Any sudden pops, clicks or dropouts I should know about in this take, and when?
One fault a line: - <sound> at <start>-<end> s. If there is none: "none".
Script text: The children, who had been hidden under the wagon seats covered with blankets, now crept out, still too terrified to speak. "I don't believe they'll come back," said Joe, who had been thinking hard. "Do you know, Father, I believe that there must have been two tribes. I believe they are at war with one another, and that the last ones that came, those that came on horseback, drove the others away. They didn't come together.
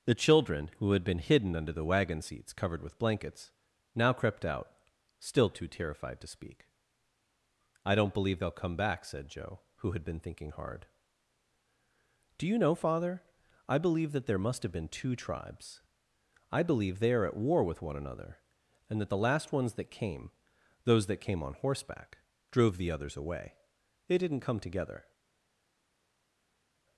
none